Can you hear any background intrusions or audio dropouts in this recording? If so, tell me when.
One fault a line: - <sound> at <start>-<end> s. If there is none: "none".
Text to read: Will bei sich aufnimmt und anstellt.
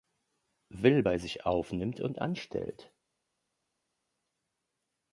none